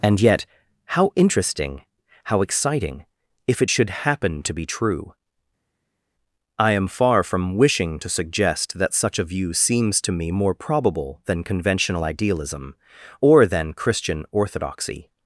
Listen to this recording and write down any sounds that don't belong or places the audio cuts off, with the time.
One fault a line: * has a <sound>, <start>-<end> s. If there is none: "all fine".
all fine